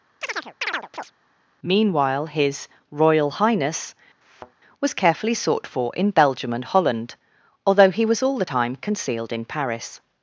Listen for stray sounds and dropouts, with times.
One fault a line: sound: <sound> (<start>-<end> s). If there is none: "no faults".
sound: chirp (0.2-1.1 s)
sound: thud (4.2-4.5 s)